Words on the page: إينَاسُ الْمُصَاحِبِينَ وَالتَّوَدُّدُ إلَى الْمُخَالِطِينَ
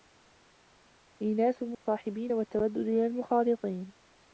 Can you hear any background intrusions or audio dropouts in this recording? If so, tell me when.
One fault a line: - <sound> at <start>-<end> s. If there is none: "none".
- dropout at 1.7-1.9 s